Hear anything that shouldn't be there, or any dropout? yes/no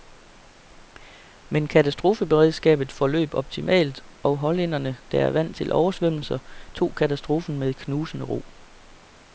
no